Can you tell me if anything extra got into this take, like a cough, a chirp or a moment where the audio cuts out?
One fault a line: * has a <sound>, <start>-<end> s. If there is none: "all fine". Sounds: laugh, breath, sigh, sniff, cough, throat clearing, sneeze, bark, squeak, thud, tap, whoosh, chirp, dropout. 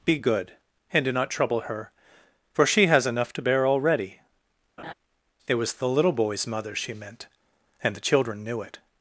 * has a laugh, 4.8-4.9 s